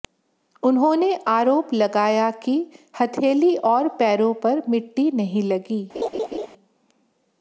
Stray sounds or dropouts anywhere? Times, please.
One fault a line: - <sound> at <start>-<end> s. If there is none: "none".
- laugh at 5.9-6.5 s